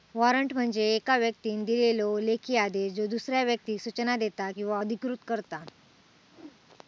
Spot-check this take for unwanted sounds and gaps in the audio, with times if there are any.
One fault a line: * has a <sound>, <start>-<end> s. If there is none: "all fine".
* has a whoosh, 6.3-6.6 s